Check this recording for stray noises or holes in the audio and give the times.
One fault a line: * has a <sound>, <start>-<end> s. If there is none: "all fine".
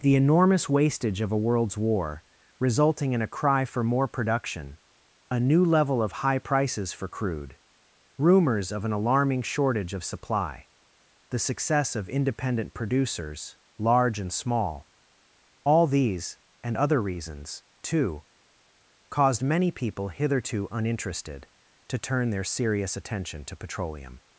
all fine